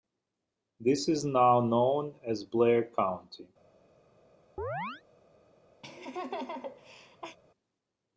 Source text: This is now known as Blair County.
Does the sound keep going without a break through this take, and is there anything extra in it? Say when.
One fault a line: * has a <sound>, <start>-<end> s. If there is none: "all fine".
* has a chirp, 4.6-5.0 s
* has a laugh, 5.8-7.4 s